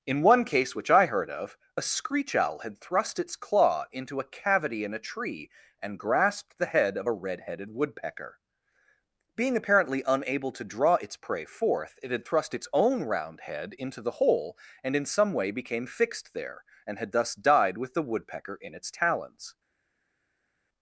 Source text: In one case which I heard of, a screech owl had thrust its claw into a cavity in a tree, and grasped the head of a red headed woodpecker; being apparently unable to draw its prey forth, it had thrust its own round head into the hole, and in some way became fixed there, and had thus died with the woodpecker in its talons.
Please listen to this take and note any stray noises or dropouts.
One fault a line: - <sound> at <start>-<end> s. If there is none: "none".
none